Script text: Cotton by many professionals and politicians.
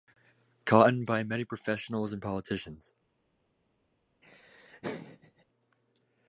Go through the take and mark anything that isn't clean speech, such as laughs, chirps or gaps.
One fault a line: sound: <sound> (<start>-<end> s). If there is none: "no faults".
sound: laugh (4.2-5.4 s)